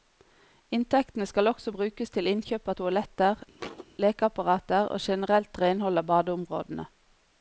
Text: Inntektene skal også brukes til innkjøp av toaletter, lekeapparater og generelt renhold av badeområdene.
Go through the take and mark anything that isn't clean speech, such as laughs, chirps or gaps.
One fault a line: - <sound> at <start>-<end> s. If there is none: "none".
- thud at 3.6-3.9 s